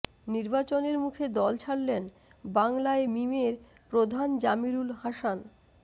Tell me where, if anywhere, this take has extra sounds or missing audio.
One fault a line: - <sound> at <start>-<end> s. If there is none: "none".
none